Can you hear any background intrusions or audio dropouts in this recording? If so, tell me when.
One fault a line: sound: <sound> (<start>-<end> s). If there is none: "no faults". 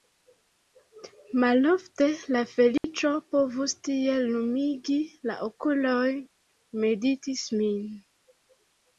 sound: dropout (2.8-2.8 s)